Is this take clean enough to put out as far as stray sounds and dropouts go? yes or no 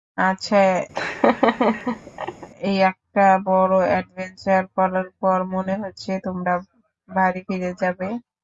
no